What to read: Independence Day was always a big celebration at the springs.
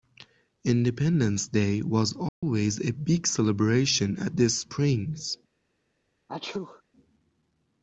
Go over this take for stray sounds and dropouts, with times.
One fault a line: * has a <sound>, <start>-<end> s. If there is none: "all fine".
* has a dropout, 2.3-2.4 s
* has a sneeze, 6.3-6.8 s